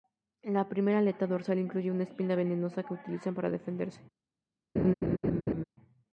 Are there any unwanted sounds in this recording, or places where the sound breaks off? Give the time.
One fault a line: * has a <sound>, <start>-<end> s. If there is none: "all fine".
* has a laugh, 4.8-5.6 s